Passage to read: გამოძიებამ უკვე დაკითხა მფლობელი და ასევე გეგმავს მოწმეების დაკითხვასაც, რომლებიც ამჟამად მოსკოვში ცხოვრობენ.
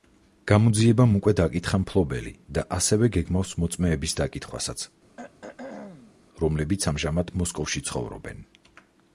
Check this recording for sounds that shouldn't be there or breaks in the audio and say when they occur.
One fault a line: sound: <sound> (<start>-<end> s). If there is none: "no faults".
sound: throat clearing (5.2-6.2 s)